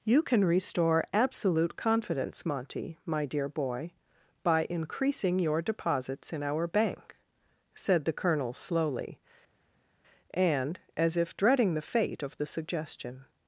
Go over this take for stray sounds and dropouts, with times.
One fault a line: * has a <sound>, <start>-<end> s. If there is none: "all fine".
all fine